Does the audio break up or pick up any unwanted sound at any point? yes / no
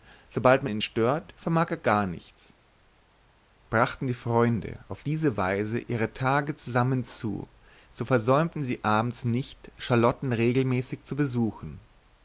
no